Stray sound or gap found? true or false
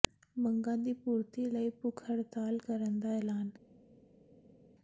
false